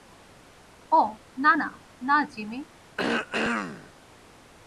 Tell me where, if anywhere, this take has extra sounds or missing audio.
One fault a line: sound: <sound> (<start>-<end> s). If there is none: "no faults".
sound: throat clearing (3.0-3.9 s)